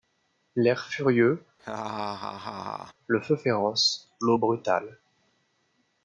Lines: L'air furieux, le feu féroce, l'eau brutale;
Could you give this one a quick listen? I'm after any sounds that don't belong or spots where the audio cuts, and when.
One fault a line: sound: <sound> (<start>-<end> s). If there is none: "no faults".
sound: laugh (1.6-2.9 s)